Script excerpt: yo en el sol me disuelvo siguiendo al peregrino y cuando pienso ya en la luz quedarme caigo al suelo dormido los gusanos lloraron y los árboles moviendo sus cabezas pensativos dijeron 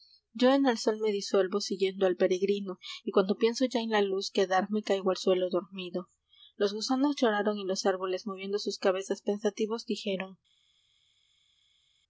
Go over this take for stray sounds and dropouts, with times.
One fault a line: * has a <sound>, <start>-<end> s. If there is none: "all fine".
all fine